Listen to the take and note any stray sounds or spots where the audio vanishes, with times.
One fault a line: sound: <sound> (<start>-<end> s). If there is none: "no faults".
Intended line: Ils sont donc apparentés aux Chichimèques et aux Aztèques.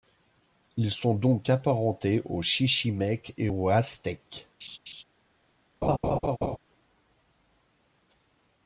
sound: laugh (4.6-5.0 s)
sound: laugh (5.8-6.6 s)